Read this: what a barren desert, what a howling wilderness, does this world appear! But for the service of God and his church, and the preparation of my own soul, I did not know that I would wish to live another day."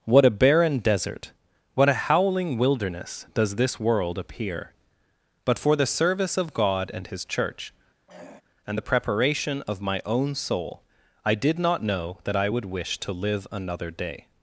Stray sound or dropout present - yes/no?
yes